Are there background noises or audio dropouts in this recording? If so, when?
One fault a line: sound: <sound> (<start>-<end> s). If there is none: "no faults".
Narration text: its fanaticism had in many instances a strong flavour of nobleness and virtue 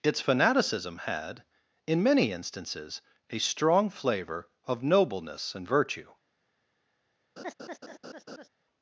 sound: laugh (7.4-8.5 s)